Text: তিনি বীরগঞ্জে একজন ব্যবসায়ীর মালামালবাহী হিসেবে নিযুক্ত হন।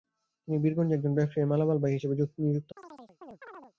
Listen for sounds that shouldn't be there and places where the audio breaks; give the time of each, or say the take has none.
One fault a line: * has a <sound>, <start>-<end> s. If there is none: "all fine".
* has a chirp, 2.8-3.7 s